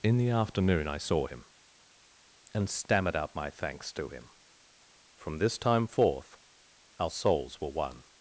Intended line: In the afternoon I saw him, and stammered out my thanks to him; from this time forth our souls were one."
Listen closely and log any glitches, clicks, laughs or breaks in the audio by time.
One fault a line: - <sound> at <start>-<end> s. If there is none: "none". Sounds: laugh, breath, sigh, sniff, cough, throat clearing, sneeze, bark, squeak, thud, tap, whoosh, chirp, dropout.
none